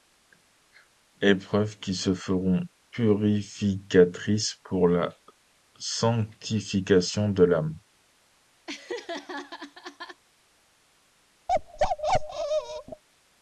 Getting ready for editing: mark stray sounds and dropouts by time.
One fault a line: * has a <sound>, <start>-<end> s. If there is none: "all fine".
* has a laugh, 8.7-10.2 s
* has a bark, 11.5-13.0 s